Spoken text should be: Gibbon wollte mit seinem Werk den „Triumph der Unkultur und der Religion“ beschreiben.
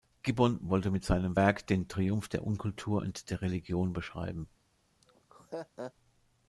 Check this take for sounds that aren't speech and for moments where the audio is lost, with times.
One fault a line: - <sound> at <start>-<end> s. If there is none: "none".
- laugh at 5.0-5.9 s